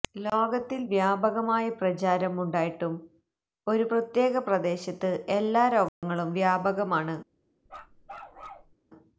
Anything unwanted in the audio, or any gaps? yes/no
yes